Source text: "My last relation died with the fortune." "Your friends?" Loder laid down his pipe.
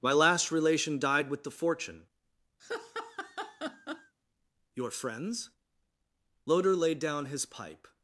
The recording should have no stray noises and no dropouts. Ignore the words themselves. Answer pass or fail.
fail